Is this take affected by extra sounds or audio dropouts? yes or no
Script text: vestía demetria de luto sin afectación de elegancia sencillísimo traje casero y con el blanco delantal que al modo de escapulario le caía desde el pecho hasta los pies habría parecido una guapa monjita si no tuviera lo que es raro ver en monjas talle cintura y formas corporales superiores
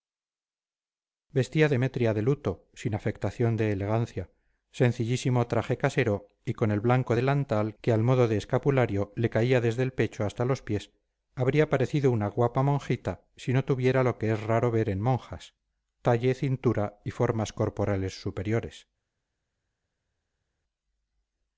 no